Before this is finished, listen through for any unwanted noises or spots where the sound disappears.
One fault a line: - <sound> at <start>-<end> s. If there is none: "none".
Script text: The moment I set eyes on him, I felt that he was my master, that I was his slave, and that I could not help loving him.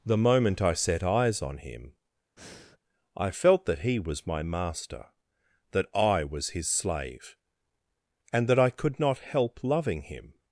- breath at 2.4-2.8 s